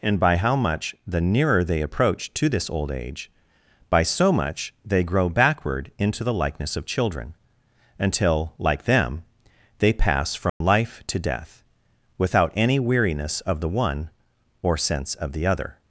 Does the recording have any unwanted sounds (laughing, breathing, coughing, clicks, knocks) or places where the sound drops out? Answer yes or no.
yes